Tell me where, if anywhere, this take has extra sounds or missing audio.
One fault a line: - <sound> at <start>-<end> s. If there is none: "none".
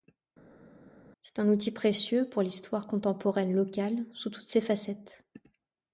none